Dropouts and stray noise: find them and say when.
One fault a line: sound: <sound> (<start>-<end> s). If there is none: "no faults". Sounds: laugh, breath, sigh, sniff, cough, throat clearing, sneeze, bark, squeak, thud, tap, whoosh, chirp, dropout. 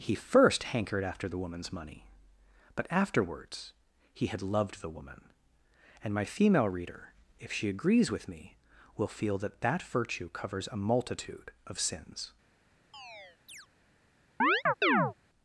sound: chirp (12.9-13.7 s)
sound: chirp (14.4-15.1 s)